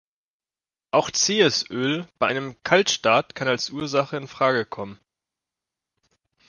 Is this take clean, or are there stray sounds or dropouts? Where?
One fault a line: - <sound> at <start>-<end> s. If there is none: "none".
none